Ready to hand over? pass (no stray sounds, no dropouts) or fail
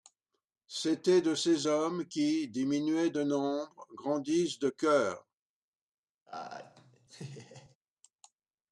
fail